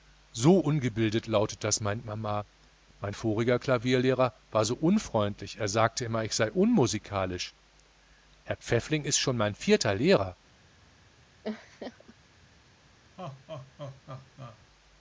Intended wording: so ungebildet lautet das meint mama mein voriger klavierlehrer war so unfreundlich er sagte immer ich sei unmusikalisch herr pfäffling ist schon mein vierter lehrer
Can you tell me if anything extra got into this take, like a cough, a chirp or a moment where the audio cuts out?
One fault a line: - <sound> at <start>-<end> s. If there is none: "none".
- laugh at 11.4-12.1 s
- laugh at 13.2-14.6 s